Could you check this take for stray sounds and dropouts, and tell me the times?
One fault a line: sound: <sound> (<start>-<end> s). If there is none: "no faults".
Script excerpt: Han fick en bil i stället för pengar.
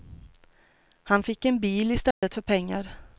sound: dropout (2.1-2.2 s)